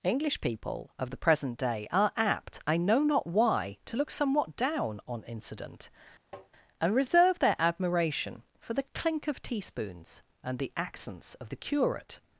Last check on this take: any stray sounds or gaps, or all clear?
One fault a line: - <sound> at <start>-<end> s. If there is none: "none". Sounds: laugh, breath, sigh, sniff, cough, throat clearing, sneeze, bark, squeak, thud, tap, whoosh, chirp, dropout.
- tap at 6.3-6.5 s